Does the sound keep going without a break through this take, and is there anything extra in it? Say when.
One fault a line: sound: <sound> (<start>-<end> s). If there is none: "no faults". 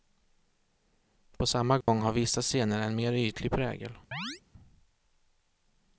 sound: dropout (1.8-1.9 s)
sound: chirp (4.1-4.4 s)